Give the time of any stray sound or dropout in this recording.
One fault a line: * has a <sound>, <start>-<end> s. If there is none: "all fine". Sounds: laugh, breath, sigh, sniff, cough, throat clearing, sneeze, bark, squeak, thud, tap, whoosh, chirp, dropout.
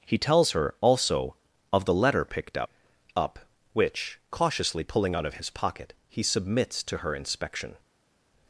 all fine